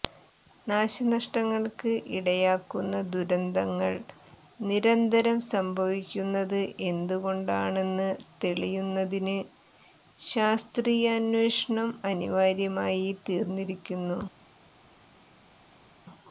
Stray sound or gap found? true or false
false